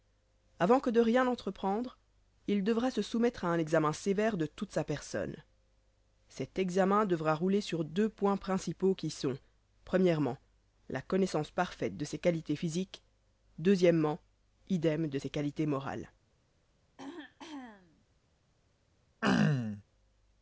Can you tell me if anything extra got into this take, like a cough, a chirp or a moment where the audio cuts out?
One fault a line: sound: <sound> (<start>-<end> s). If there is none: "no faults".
sound: throat clearing (17.0-18.1 s)
sound: throat clearing (19.2-19.8 s)